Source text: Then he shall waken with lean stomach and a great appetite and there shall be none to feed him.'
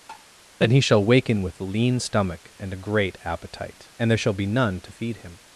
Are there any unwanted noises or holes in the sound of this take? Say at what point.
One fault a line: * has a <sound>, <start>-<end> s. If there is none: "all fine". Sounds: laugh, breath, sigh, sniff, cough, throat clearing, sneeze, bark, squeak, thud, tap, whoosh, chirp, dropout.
* has a tap, 0.1-0.3 s